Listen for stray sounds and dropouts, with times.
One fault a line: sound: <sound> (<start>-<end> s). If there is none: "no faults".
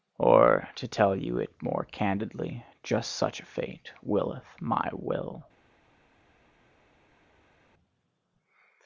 no faults